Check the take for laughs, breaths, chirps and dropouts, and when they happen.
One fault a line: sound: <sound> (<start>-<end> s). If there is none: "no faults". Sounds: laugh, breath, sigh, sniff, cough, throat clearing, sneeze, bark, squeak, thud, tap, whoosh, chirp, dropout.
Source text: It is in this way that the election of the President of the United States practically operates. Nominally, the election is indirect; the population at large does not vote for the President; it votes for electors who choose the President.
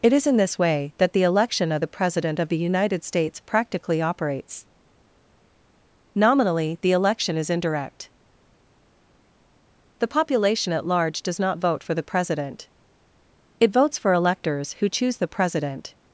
no faults